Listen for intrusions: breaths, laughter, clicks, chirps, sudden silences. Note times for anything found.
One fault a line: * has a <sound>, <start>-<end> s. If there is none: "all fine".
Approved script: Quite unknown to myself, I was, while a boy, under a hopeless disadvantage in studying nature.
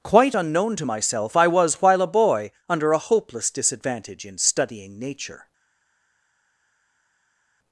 all fine